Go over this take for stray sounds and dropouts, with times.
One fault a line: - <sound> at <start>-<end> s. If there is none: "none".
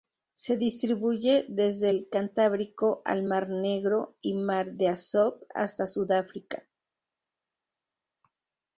none